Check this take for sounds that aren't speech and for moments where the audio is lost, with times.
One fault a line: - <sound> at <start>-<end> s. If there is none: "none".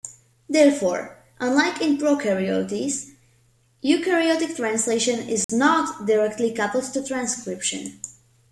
- dropout at 5.4-5.5 s